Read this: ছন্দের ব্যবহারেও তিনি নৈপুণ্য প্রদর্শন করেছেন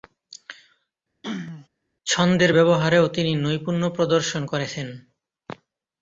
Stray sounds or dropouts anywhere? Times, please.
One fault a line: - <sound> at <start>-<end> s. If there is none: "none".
- throat clearing at 1.2-1.7 s